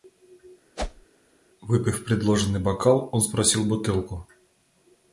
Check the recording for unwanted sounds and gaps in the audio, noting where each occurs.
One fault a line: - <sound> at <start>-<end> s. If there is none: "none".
- whoosh at 0.8-1.1 s